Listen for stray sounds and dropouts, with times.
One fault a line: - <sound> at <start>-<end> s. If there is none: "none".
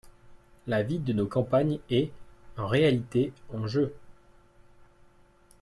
none